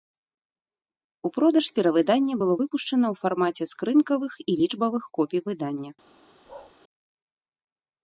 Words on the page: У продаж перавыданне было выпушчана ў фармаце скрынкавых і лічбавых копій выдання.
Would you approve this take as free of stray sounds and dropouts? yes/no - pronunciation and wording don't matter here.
no